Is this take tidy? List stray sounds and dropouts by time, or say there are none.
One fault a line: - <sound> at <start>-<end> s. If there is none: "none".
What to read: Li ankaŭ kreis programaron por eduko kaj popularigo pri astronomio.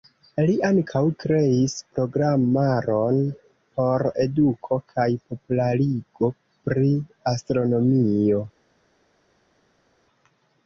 none